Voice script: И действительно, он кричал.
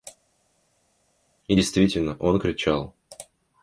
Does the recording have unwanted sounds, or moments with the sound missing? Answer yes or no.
no